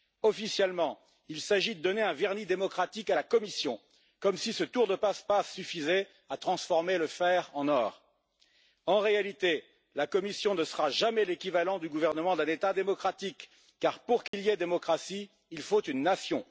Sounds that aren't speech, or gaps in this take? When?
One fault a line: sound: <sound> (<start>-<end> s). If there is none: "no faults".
sound: dropout (14.3-14.3 s)